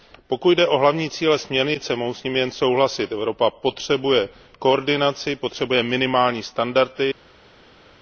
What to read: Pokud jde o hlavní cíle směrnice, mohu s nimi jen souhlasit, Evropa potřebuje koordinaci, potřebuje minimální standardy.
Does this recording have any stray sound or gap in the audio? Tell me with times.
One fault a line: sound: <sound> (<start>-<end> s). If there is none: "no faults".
no faults